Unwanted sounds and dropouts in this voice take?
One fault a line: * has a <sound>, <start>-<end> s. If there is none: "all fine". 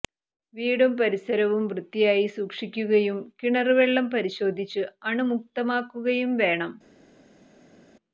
all fine